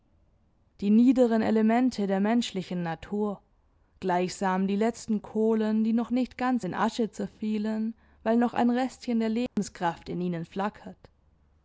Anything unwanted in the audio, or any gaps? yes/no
yes